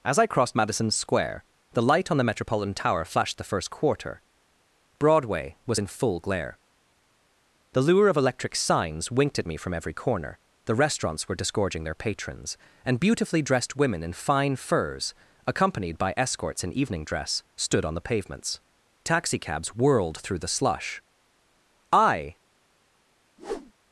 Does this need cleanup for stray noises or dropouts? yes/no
yes